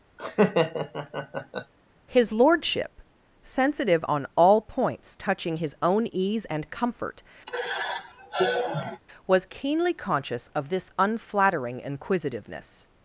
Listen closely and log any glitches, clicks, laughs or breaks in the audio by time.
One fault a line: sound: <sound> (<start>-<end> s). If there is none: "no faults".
sound: laugh (0.2-1.7 s)
sound: sigh (7.5-9.0 s)